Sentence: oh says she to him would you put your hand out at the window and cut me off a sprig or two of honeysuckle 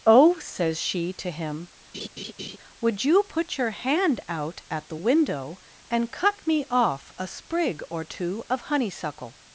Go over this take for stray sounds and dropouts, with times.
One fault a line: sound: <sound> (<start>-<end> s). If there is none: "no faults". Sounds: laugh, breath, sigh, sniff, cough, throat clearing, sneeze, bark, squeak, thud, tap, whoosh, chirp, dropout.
sound: laugh (1.9-2.6 s)